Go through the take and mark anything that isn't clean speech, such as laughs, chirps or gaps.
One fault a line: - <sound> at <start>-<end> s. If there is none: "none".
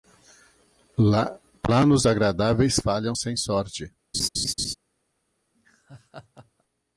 - laugh at 4.1-4.7 s
- laugh at 5.5-6.6 s